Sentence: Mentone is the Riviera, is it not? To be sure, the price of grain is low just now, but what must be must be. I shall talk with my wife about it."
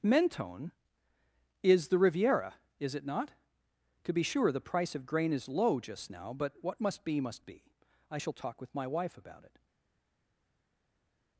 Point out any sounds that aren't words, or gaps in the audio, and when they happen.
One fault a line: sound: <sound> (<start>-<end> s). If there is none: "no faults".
no faults